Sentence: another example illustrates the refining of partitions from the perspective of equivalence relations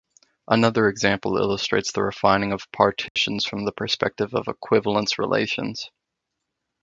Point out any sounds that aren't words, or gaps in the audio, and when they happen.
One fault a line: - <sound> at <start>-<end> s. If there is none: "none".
- dropout at 3.1-3.2 s